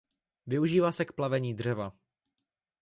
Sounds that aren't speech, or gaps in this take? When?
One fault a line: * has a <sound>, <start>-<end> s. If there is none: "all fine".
all fine